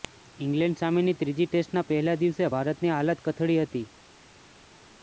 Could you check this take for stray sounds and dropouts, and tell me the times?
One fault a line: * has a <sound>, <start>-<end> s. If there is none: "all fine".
all fine